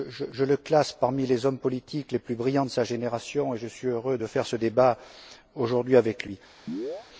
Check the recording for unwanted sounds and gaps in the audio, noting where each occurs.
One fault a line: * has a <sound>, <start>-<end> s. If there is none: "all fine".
* has a chirp, 6.7-7.1 s